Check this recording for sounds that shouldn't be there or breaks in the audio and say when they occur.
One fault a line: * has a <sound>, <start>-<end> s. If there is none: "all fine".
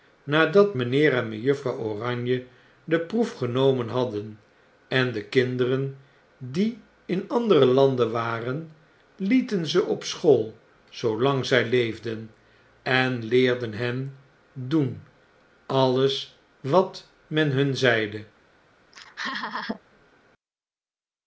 * has a laugh, 18.9-19.8 s